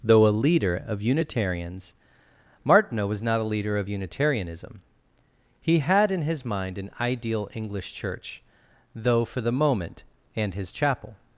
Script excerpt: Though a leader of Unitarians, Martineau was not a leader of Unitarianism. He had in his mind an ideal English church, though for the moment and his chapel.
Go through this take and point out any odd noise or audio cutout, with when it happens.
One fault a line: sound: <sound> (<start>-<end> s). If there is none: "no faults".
no faults